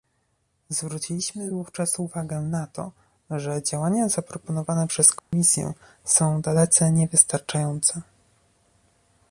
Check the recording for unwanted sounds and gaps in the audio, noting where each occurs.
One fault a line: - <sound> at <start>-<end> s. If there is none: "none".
- dropout at 5.2-5.3 s